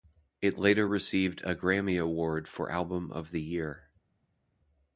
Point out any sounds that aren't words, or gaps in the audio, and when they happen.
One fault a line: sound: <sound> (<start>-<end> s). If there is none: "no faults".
no faults